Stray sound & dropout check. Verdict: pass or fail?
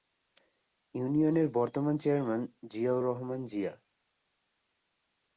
pass